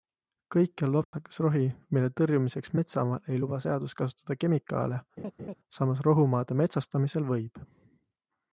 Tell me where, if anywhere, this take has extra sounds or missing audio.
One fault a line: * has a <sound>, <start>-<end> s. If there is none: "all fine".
* has a dropout, 1.0-1.1 s
* has a laugh, 5.2-5.6 s